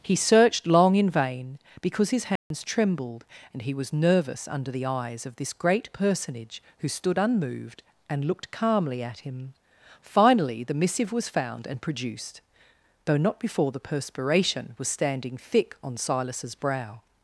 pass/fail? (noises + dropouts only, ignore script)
fail